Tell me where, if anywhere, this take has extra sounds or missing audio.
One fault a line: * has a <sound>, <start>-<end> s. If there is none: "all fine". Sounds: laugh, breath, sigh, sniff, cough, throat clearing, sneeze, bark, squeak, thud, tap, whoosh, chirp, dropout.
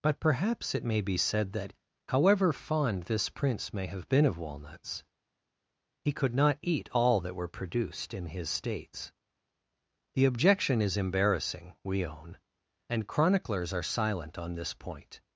all fine